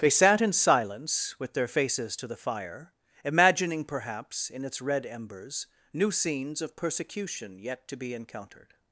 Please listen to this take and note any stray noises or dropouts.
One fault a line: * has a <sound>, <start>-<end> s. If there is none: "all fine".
all fine